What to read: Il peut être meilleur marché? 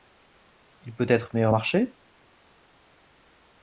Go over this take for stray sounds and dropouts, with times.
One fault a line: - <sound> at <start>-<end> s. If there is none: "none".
none